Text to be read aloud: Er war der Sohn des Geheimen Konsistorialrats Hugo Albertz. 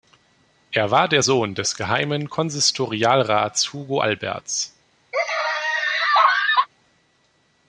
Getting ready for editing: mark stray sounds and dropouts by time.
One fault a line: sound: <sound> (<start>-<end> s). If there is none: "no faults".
sound: laugh (5.1-6.7 s)